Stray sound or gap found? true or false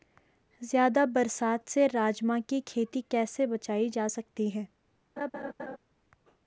true